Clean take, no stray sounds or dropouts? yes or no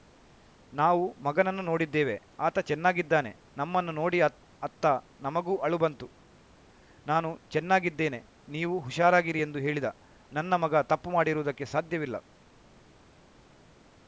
yes